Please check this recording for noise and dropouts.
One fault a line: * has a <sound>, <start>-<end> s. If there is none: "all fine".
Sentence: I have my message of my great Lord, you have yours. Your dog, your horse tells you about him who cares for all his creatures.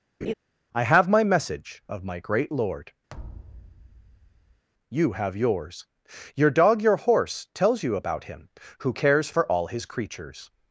* has a laugh, 0.2-0.3 s
* has a thud, 3.1-4.6 s